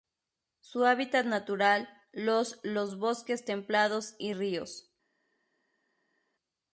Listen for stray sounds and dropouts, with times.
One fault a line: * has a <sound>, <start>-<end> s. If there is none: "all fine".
all fine